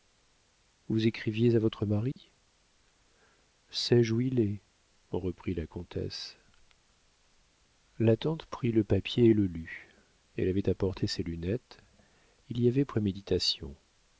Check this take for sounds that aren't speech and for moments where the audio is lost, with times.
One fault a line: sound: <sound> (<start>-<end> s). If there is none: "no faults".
sound: dropout (2.1-2.2 s)